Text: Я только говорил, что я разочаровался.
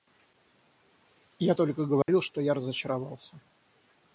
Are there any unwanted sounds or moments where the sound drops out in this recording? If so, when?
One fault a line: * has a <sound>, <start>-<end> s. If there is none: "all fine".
* has a dropout, 2.0-2.1 s